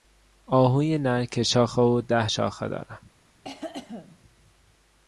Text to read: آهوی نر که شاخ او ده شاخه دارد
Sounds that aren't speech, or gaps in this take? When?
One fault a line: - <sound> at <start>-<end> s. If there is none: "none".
- cough at 3.4-4.2 s